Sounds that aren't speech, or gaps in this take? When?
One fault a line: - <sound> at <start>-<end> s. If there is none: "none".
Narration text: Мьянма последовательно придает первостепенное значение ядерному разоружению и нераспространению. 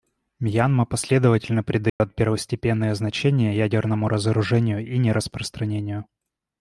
- dropout at 1.9-2.0 s